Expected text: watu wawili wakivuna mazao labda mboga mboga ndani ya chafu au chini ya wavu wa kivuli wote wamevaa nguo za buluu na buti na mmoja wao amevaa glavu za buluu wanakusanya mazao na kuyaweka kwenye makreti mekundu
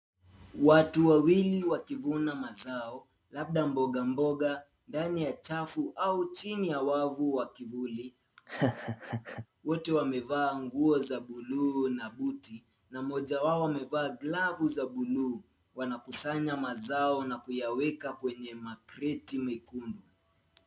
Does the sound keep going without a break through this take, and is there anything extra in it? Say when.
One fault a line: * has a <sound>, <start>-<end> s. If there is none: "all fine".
* has a laugh, 8.4-9.5 s